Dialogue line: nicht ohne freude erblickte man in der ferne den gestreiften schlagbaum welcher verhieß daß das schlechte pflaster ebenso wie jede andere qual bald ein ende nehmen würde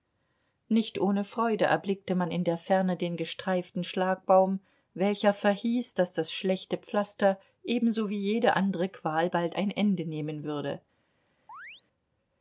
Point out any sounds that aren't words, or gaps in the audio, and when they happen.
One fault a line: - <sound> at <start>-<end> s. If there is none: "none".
- chirp at 11.5-11.8 s